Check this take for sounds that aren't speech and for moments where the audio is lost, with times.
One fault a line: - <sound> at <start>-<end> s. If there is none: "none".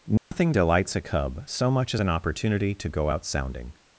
- dropout at 0.2-0.3 s